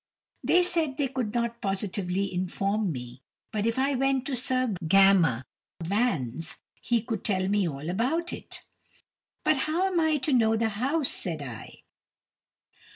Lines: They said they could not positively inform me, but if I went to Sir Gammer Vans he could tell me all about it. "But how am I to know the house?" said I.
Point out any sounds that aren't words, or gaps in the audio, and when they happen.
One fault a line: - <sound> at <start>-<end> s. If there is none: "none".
none